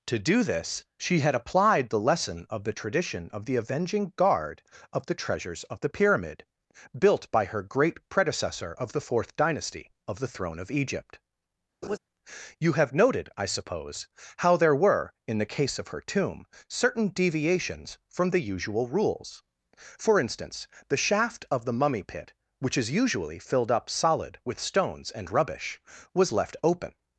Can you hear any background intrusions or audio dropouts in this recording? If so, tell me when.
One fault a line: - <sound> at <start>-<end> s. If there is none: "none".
- laugh at 11.8-12.0 s